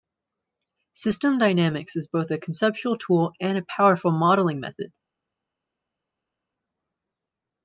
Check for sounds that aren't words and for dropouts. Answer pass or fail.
pass